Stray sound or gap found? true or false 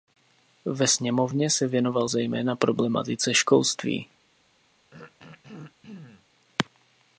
true